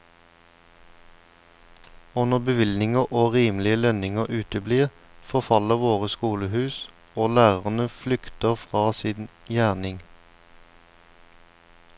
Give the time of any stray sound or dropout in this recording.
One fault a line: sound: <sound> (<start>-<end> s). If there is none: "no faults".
no faults